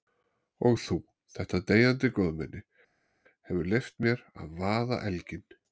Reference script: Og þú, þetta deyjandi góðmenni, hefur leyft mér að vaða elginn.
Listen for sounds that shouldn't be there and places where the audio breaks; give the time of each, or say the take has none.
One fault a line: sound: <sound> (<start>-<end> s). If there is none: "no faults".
no faults